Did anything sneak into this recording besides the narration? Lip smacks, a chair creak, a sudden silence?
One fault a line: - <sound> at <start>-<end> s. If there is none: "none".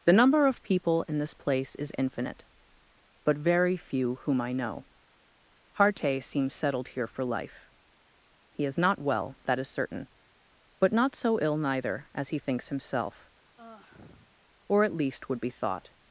- sigh at 13.6-14.4 s